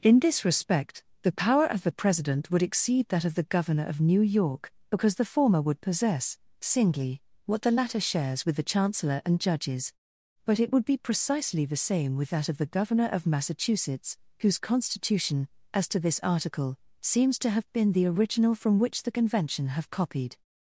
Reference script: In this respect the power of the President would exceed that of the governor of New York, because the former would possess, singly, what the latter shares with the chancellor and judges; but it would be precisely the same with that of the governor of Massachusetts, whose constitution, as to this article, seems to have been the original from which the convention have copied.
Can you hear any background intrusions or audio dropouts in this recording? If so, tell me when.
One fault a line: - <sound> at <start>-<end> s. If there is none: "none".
none